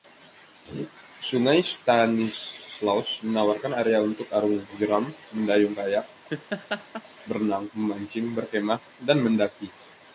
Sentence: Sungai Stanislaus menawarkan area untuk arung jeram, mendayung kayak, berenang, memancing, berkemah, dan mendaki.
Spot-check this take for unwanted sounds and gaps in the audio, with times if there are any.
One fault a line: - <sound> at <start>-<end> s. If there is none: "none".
- laugh at 6.3-7.0 s